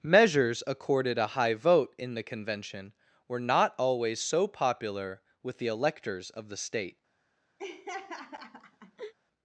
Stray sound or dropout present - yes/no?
yes